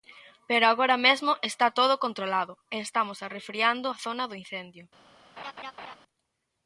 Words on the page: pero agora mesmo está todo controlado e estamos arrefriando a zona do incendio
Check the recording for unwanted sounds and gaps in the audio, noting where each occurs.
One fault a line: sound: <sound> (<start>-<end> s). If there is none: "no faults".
sound: laugh (5.4-6.0 s)